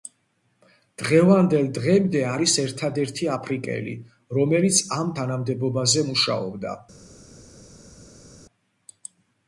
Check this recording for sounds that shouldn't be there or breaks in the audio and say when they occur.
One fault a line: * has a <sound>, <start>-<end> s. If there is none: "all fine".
all fine